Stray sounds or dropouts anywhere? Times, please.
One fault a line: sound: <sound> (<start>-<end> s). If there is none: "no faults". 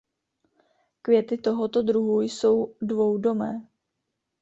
no faults